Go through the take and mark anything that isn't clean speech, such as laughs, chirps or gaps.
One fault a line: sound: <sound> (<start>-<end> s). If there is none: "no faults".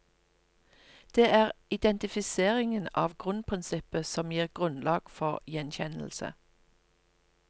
no faults